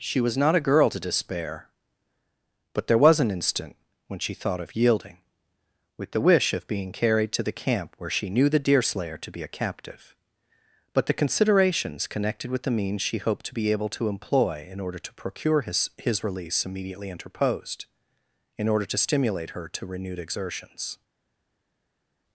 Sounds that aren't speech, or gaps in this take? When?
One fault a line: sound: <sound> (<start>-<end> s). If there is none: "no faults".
no faults